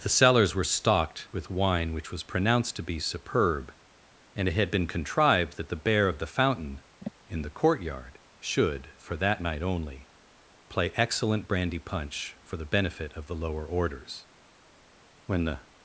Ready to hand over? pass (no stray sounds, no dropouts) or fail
fail